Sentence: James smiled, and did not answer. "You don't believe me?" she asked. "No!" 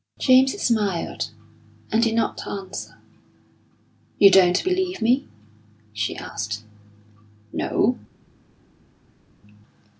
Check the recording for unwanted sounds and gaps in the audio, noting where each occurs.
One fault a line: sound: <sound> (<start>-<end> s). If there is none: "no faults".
no faults